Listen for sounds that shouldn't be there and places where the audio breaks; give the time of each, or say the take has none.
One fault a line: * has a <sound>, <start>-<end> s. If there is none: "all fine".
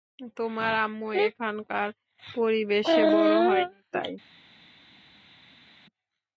all fine